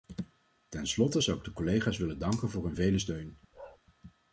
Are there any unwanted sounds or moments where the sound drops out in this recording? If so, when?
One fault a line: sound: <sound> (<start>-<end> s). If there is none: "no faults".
sound: bark (3.5-3.8 s)